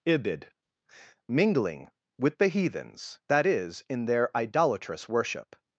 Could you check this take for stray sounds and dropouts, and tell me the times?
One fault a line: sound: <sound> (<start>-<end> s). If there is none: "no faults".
no faults